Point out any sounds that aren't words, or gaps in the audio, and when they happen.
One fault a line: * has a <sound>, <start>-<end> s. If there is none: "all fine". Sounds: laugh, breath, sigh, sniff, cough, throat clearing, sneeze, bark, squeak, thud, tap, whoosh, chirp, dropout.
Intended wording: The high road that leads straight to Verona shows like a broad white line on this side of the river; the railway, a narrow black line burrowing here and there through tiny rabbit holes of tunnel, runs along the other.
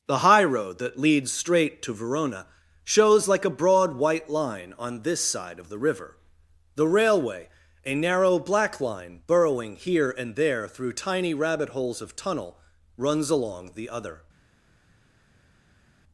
all fine